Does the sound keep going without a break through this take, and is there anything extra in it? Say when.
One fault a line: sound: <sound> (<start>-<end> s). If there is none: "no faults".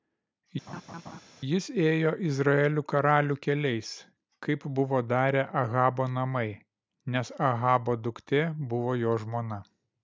sound: laugh (0.7-1.2 s)